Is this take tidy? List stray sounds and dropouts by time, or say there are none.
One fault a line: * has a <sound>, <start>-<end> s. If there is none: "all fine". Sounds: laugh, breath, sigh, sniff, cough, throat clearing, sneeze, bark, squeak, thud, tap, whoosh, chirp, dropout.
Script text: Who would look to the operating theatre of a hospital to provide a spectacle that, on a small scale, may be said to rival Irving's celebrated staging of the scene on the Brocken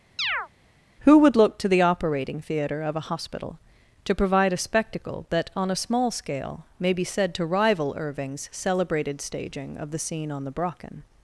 * has a chirp, 0.2-0.5 s